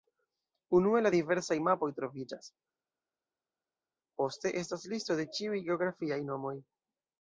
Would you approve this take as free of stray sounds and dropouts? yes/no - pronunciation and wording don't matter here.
yes